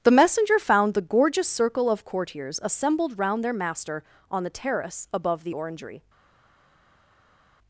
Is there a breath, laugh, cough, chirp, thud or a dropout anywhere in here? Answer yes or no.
no